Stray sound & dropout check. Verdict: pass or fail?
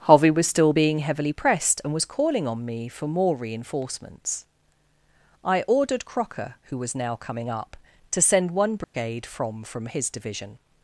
fail